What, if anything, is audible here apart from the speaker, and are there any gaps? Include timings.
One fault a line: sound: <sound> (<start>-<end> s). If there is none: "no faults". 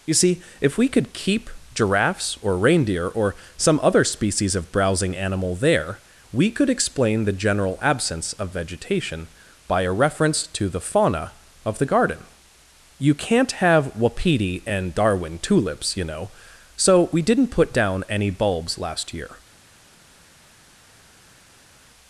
no faults